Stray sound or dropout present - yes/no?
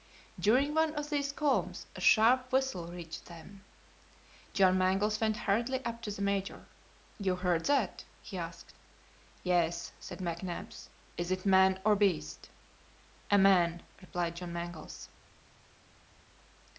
no